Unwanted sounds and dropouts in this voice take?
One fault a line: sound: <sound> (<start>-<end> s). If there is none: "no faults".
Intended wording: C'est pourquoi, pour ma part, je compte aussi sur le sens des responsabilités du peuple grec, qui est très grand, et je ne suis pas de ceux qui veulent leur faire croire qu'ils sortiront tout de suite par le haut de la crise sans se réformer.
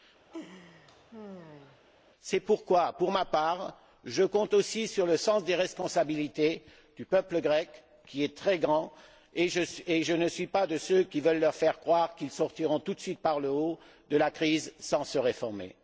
sound: laugh (0.3-1.8 s)